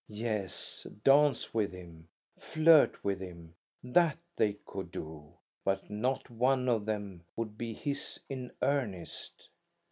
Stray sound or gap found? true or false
false